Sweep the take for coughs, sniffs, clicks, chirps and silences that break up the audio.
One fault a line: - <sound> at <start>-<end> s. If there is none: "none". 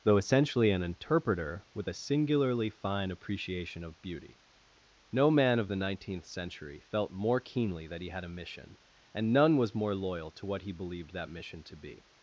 none